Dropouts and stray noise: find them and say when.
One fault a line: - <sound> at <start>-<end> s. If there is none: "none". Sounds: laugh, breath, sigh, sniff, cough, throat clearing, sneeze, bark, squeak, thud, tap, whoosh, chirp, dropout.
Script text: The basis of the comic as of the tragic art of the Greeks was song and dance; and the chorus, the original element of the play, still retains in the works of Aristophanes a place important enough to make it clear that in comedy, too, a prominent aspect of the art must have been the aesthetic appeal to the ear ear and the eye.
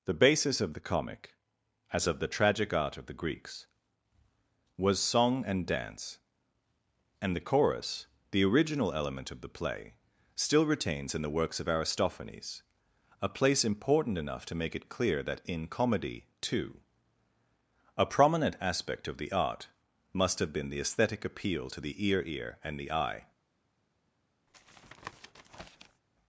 - tap at 24.5-26.0 s